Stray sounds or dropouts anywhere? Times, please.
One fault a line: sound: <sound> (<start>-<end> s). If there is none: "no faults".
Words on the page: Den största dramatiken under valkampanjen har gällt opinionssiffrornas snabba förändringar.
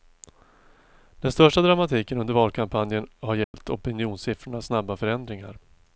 sound: dropout (3.4-3.5 s)